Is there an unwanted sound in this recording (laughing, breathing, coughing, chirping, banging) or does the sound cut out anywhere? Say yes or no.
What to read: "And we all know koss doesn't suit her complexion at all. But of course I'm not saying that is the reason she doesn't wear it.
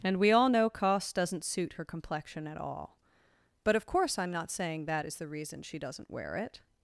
no